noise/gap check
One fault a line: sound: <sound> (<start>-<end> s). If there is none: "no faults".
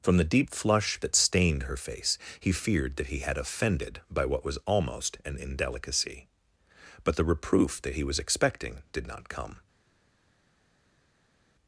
no faults